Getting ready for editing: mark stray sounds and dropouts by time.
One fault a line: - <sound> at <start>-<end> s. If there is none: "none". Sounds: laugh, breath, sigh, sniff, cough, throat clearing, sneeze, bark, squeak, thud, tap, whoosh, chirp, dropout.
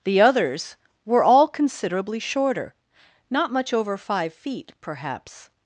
none